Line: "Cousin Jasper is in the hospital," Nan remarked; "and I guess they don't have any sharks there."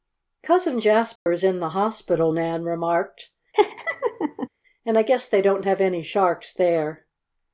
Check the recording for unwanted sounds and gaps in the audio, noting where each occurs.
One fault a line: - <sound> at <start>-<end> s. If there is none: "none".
- dropout at 1.2-1.3 s
- laugh at 3.5-4.5 s